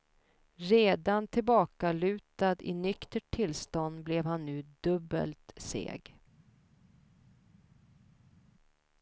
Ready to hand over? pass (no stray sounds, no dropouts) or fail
pass